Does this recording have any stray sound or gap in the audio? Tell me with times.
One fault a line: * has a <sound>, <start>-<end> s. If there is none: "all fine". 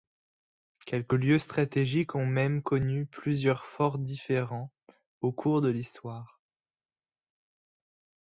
all fine